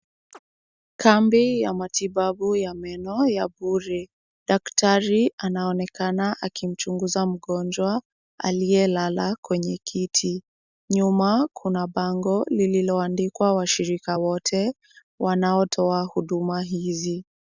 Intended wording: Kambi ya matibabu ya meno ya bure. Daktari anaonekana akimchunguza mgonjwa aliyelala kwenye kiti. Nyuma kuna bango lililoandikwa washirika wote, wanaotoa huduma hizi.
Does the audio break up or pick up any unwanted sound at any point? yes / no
yes